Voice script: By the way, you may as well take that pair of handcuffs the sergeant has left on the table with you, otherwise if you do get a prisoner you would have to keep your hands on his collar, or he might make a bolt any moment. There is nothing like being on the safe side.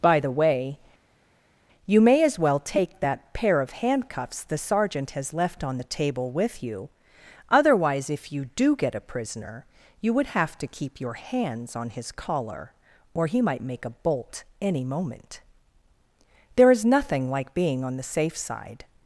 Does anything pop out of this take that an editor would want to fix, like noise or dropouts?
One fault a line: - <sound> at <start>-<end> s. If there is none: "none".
none